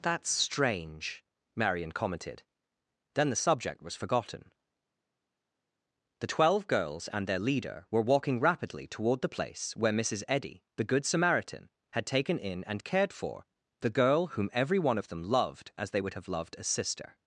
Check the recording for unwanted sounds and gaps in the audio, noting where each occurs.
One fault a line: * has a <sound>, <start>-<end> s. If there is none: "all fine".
all fine